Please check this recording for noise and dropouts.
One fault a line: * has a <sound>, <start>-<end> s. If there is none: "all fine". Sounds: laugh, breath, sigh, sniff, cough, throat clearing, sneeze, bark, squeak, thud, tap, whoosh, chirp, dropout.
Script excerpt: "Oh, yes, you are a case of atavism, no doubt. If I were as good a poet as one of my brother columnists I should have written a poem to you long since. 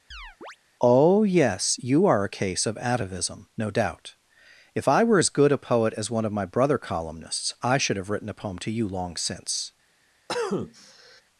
* has a chirp, 0.1-0.6 s
* has a cough, 10.3-11.2 s